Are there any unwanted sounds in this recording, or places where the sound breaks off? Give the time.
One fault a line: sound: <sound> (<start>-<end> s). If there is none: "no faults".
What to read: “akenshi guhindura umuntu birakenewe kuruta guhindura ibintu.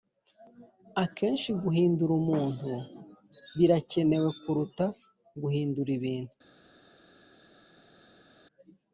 no faults